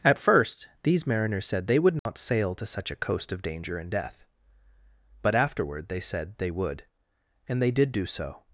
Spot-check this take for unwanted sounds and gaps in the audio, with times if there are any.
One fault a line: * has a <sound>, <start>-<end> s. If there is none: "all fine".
* has a dropout, 2.0-2.1 s